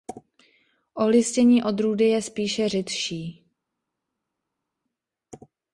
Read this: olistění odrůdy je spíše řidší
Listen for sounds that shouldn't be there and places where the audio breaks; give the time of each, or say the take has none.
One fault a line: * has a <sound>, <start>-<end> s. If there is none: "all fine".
all fine